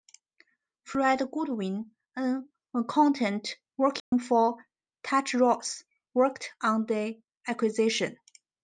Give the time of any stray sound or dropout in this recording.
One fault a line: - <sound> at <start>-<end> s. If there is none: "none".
- dropout at 4.0-4.1 s